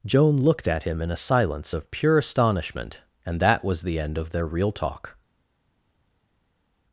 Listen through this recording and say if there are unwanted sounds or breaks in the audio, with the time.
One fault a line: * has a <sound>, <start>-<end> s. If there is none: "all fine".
all fine